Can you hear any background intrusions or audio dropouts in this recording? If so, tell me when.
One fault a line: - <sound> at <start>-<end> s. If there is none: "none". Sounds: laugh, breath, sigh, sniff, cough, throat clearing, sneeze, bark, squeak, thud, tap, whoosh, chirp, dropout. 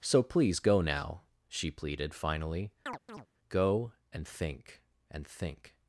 - chirp at 2.9-3.3 s